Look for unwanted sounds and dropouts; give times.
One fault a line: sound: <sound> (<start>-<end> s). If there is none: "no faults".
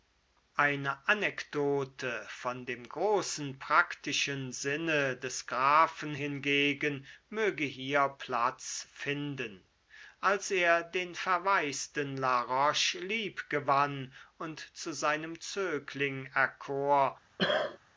sound: cough (17.4-17.8 s)